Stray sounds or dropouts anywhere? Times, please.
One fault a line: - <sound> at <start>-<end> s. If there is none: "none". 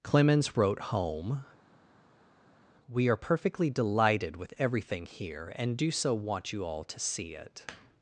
none